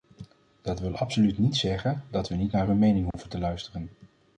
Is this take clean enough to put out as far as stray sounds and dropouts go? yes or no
no